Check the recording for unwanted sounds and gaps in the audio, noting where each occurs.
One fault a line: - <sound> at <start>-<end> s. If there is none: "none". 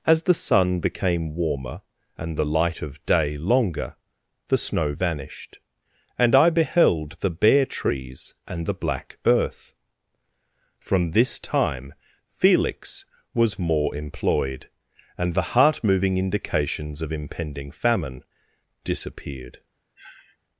- sniff at 20.0-20.4 s